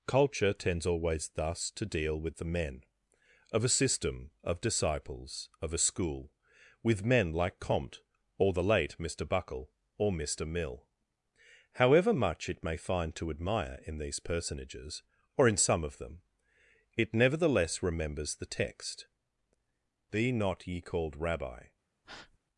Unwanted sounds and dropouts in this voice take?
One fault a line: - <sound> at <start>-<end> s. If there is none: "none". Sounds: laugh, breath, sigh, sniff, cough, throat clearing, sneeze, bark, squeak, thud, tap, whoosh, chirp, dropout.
- breath at 22.0-22.4 s